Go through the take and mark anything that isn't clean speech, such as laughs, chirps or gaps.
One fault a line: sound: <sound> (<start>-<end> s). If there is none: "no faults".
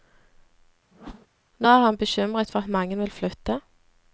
sound: whoosh (0.9-1.3 s)